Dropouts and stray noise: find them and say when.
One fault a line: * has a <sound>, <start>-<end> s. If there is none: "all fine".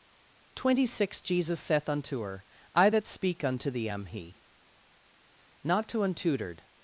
all fine